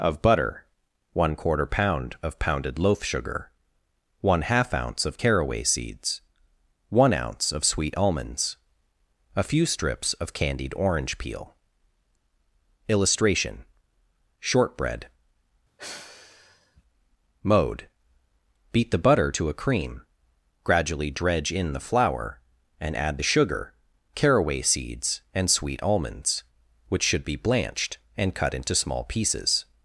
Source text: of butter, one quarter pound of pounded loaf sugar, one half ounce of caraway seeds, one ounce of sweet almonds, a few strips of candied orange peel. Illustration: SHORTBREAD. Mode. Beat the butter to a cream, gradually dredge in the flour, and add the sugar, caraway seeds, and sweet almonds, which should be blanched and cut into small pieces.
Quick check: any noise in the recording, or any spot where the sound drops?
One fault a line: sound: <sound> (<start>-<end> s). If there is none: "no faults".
sound: sigh (15.8-16.8 s)